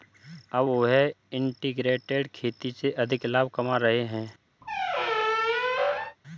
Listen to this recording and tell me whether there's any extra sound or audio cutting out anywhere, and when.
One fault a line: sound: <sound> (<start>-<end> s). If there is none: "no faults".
sound: squeak (4.6-6.2 s)